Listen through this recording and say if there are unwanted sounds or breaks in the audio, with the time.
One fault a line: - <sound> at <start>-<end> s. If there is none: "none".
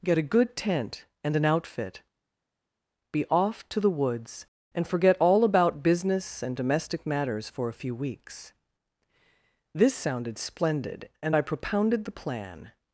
none